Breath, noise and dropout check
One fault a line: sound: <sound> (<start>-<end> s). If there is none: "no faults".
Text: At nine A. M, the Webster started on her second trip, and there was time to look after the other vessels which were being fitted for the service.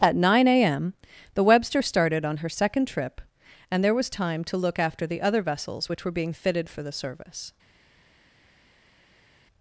no faults